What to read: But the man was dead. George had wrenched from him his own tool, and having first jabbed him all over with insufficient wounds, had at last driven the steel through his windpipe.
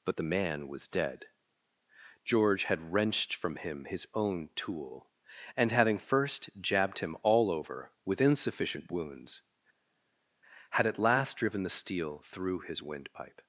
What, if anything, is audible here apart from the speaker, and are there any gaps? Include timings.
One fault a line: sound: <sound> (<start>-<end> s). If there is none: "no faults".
no faults